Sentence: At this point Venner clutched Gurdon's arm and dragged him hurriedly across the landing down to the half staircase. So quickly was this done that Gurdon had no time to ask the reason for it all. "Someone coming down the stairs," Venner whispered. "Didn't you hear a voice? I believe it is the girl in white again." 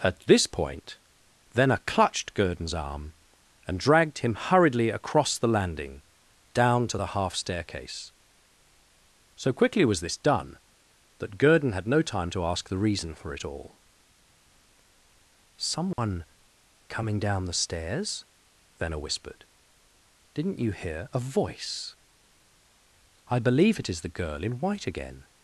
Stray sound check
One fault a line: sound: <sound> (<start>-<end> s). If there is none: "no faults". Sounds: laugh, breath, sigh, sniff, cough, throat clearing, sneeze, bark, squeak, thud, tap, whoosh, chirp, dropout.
sound: dropout (15.9-16.0 s)